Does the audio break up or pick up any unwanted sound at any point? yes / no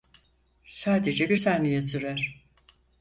no